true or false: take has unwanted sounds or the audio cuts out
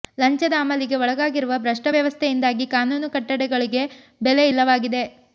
false